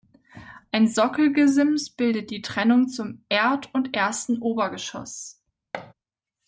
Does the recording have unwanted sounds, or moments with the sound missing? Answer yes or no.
yes